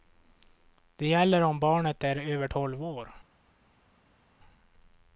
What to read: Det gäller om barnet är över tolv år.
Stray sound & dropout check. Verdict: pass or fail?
pass